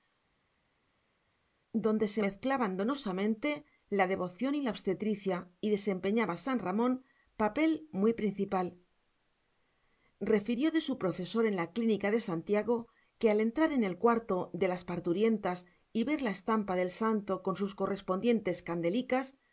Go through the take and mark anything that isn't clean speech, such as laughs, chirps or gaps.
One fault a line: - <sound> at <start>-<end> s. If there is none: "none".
none